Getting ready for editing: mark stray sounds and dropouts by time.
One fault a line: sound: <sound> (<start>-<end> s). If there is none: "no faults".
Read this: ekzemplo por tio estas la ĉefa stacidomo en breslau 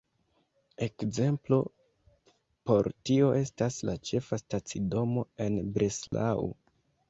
sound: dropout (6.1-6.1 s)